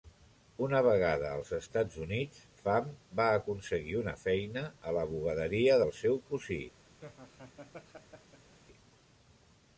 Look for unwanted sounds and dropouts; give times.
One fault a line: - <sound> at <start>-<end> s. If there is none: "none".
- laugh at 7.0-8.6 s